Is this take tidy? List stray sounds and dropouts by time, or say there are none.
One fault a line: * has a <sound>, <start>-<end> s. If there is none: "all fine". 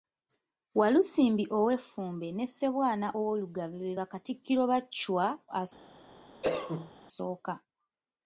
* has a cough, 6.4-6.9 s